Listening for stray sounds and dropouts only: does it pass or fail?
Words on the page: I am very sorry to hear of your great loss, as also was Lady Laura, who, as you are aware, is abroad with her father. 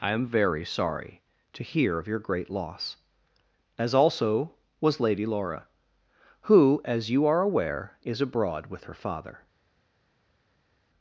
pass